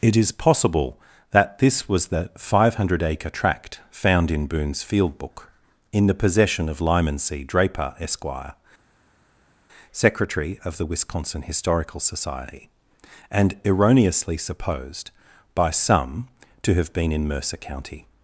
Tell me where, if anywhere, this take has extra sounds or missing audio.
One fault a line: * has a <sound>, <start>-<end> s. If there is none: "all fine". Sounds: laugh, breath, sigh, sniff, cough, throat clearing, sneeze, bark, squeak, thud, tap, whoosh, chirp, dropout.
all fine